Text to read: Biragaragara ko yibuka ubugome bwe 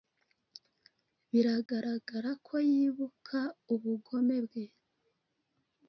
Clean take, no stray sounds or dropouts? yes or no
no